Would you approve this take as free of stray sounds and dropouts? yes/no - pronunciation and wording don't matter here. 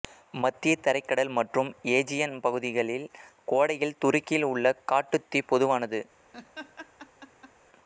no